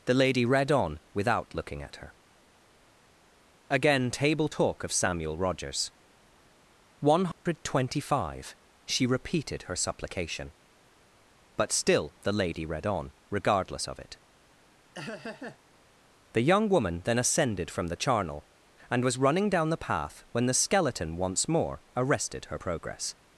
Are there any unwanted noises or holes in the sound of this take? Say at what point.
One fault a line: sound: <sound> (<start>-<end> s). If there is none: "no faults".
sound: dropout (7.3-7.5 s)
sound: laugh (14.9-15.6 s)